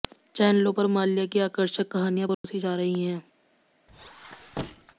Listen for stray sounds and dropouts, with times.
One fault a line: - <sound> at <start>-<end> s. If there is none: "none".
- dropout at 2.3-2.4 s
- squeak at 3.9-5.0 s